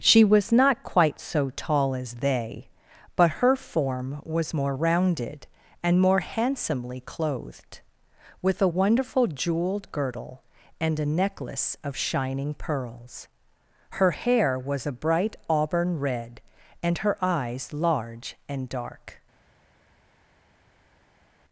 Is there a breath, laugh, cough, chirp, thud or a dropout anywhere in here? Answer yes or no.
no